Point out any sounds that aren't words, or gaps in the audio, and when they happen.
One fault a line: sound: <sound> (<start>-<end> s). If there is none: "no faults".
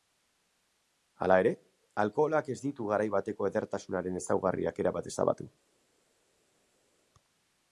no faults